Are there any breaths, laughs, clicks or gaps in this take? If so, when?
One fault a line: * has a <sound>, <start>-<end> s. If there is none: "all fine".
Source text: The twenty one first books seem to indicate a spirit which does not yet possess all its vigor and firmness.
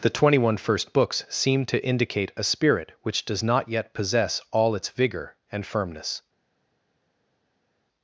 all fine